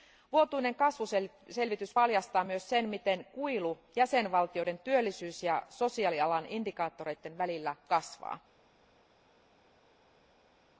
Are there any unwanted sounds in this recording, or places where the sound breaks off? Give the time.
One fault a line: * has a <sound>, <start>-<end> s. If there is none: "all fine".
all fine